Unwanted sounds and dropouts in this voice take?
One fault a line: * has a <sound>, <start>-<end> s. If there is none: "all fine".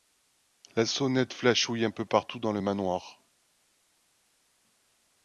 all fine